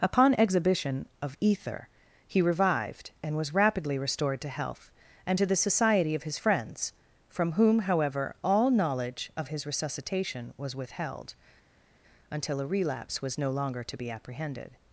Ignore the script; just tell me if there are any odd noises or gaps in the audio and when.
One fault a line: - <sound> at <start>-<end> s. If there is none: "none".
none